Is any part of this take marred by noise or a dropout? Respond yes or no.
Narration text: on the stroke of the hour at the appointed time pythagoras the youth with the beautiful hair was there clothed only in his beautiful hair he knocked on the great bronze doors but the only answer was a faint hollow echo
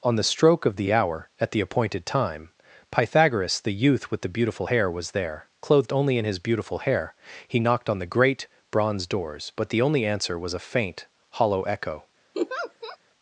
yes